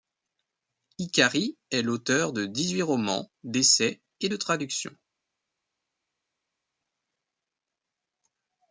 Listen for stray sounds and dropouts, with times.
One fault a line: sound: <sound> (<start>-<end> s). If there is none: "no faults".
no faults